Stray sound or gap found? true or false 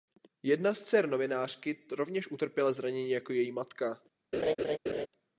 true